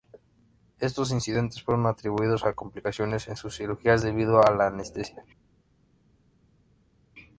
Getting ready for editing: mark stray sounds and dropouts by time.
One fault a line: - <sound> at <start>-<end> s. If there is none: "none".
none